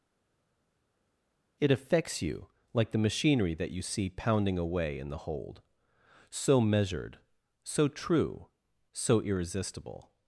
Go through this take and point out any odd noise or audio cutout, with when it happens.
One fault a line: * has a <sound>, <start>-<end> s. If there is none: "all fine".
all fine